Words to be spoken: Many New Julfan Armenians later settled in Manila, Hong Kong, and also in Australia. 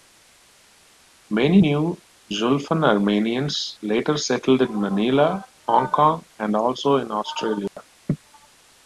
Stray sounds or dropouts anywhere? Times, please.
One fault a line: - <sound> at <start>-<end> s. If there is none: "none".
- dropout at 7.7-7.8 s